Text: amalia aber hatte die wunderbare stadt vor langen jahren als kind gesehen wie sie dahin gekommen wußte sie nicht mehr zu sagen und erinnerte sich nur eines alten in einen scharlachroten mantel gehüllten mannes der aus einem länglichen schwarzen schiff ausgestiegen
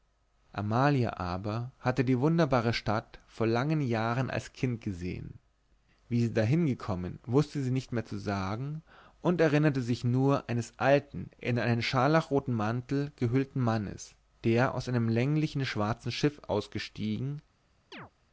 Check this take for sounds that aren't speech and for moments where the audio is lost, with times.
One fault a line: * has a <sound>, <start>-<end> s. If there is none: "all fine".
* has a chirp, 17.9-18.1 s